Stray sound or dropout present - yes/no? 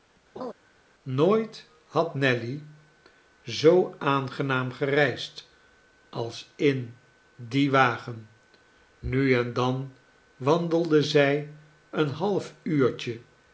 yes